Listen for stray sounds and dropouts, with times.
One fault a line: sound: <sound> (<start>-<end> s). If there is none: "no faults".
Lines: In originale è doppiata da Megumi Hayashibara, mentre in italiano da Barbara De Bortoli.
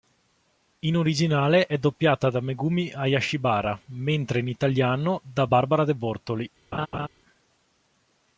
sound: laugh (6.7-7.1 s)